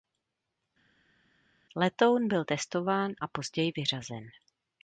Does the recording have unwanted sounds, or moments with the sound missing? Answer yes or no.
no